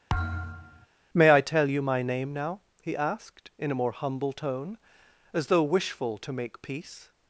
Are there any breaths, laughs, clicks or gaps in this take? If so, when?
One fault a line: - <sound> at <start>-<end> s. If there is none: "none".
- thud at 0.1-0.9 s